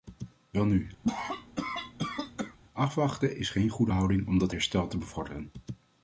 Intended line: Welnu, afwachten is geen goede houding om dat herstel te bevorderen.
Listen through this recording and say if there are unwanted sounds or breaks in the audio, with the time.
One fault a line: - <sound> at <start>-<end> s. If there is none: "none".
- cough at 1.0-2.6 s